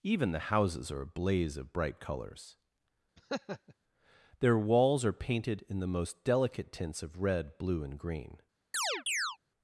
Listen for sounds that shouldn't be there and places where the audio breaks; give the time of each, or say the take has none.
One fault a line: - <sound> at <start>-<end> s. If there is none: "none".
- laugh at 3.2-3.7 s
- chirp at 8.7-9.4 s